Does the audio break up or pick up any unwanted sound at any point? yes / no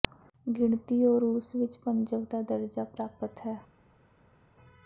no